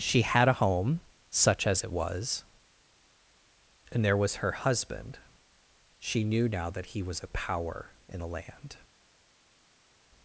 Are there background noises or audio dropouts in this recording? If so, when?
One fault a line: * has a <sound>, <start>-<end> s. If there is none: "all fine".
all fine